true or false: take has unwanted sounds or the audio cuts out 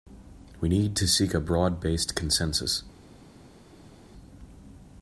false